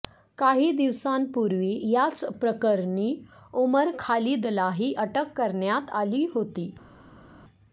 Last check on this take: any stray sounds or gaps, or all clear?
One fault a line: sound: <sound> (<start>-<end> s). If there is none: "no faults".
no faults